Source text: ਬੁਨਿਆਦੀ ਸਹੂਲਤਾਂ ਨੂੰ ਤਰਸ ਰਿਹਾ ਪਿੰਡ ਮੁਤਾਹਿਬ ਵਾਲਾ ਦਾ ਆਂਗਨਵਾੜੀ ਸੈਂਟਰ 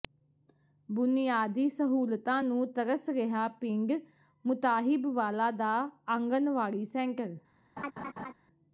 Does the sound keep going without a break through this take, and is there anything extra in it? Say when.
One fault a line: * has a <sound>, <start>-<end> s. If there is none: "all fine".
* has a laugh, 7.8-8.3 s